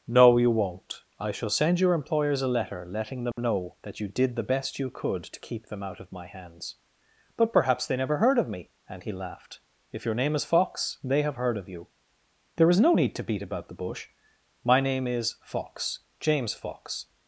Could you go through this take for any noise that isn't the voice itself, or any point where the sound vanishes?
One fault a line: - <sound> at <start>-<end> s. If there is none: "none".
- dropout at 3.3-3.4 s